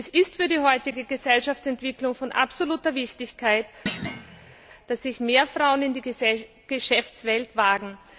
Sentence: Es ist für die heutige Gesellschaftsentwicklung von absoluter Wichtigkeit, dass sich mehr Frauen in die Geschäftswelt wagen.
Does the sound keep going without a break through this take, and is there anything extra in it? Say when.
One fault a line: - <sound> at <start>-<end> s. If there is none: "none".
- thud at 3.9-4.6 s